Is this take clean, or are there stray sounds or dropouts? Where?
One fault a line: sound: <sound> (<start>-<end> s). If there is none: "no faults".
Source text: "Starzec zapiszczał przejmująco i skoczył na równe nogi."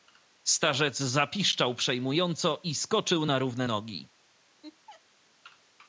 sound: laugh (4.6-5.0 s)